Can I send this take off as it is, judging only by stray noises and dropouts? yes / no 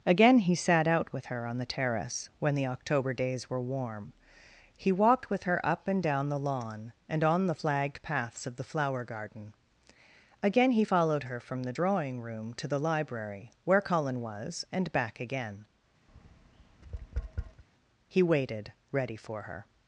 no